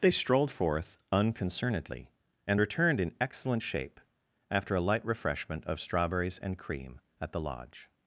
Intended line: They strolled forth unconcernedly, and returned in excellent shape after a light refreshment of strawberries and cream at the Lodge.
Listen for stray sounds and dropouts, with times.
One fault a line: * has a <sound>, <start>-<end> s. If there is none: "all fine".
all fine